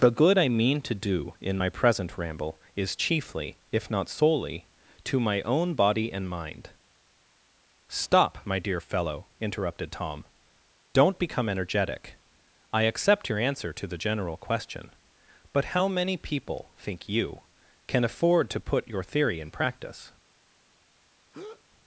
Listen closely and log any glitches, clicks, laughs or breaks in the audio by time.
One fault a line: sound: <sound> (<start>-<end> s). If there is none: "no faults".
sound: breath (21.3-21.6 s)